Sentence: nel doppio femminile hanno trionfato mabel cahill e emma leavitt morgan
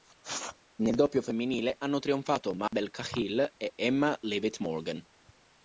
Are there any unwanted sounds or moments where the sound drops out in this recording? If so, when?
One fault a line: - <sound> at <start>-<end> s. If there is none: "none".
- dropout at 2.7-2.7 s